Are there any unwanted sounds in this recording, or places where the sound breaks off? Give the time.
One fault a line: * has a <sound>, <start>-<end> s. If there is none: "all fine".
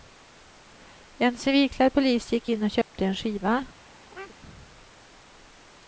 * has a dropout, 2.8-2.9 s
* has a chirp, 4.1-4.4 s